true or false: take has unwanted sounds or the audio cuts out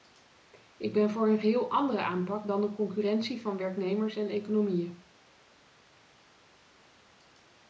false